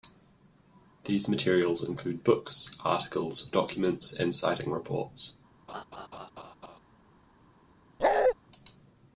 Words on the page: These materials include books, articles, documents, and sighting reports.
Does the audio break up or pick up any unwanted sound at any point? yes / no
yes